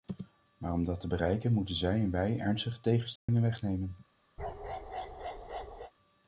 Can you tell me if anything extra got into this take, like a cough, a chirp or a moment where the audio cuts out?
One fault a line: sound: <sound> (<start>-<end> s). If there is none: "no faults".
sound: dropout (3.2-3.3 s)
sound: bark (4.4-5.9 s)